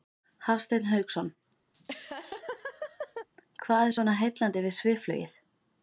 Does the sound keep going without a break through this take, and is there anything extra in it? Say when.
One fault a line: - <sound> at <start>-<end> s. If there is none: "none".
- laugh at 1.7-3.3 s